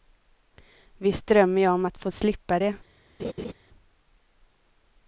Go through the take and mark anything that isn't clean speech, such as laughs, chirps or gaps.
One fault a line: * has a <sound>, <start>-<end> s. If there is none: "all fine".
* has a laugh, 3.2-3.5 s